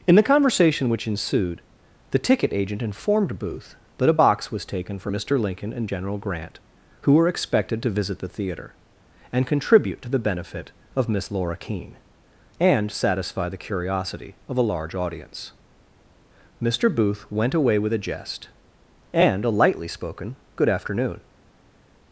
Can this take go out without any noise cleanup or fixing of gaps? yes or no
yes